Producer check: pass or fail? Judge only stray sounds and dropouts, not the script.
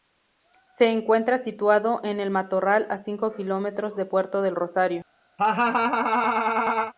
fail